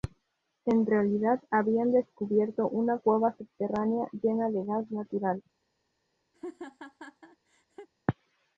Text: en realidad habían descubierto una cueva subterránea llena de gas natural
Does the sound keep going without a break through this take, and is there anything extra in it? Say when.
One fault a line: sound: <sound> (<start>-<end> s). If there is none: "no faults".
sound: laugh (6.3-7.9 s)